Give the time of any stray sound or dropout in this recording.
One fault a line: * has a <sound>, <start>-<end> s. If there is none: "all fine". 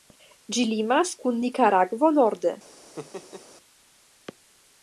* has a laugh, 3.0-3.5 s